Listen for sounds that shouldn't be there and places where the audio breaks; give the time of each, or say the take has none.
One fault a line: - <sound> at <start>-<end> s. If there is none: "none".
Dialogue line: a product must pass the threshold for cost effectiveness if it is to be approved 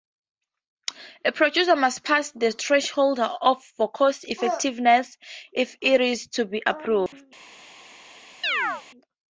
- dropout at 7.1-7.1 s
- chirp at 8.4-8.8 s